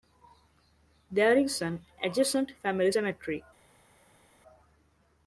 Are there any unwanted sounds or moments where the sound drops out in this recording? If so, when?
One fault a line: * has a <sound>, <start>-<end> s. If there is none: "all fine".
all fine